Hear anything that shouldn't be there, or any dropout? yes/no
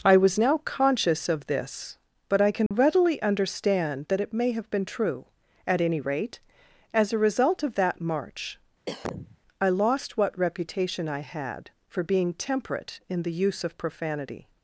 yes